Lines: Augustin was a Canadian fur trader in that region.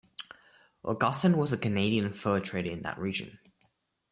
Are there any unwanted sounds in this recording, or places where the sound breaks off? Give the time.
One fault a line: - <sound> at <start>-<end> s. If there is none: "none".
none